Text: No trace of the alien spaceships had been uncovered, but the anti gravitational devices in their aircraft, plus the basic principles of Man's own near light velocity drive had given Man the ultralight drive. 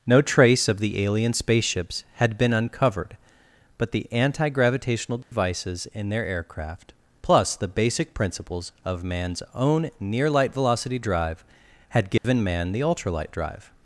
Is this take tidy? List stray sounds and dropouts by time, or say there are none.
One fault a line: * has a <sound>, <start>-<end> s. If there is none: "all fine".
* has a dropout, 5.2-5.3 s
* has a dropout, 12.2-12.2 s